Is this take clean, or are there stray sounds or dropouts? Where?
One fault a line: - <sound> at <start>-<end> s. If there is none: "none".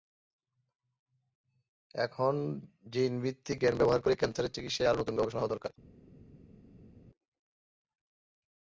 none